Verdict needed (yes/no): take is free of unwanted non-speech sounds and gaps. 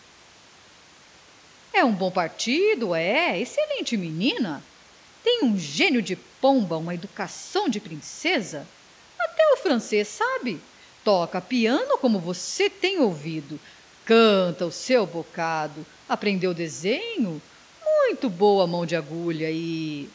yes